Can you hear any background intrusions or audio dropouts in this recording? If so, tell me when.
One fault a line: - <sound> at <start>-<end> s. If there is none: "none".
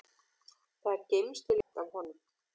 - dropout at 1.6-1.7 s